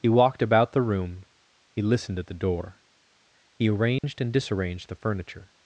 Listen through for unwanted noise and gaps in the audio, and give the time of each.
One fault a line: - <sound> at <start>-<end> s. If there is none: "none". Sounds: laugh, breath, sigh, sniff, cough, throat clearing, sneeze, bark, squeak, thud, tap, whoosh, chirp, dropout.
- dropout at 4.0-4.0 s